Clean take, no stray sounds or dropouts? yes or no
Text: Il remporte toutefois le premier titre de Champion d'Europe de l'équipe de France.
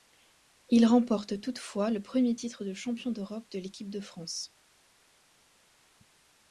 yes